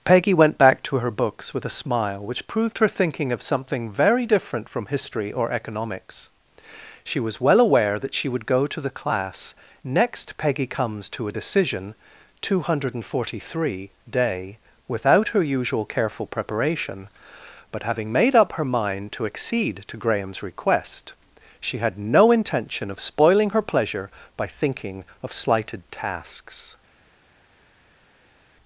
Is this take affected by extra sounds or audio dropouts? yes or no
no